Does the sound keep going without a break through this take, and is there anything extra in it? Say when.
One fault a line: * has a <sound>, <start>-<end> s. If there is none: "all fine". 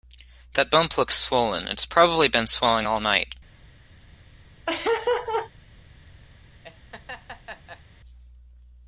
* has a laugh, 4.7-5.5 s
* has a laugh, 6.6-7.8 s